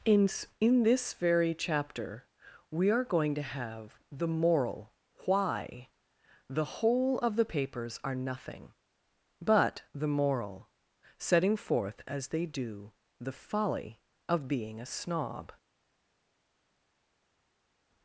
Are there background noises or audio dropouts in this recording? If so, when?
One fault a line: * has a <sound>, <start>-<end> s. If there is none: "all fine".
all fine